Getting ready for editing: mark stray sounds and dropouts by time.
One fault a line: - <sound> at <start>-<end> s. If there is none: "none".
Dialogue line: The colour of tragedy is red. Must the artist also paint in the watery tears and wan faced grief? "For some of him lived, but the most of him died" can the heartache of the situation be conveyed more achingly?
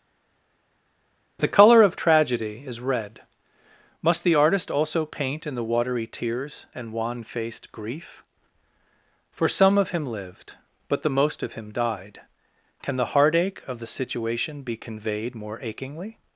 none